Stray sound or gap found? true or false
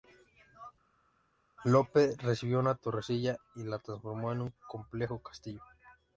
false